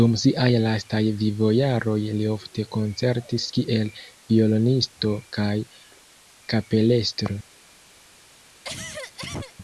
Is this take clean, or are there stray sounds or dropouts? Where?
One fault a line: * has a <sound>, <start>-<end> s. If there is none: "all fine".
* has a cough, 8.6-9.6 s